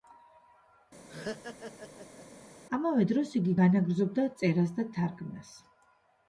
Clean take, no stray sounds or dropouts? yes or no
no